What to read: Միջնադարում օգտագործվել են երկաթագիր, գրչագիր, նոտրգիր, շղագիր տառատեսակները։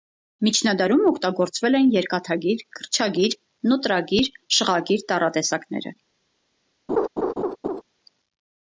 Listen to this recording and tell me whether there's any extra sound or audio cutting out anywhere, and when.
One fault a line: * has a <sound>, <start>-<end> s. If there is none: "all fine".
* has a laugh, 6.9-7.8 s